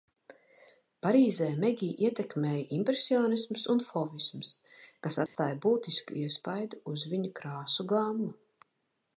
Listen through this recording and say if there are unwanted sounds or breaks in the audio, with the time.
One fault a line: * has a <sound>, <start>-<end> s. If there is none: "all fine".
* has a dropout, 5.3-5.4 s